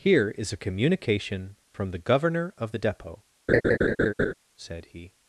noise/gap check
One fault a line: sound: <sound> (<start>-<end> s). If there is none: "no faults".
sound: laugh (3.5-4.3 s)